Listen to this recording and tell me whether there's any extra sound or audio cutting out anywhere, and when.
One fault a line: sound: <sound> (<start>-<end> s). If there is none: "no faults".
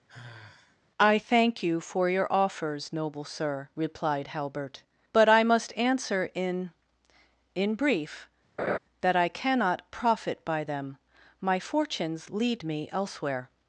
sound: sigh (0.1-0.8 s)
sound: laugh (8.6-8.8 s)